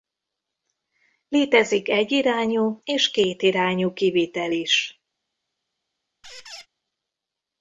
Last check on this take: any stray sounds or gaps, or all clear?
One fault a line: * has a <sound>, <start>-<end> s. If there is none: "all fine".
* has a squeak, 6.2-6.7 s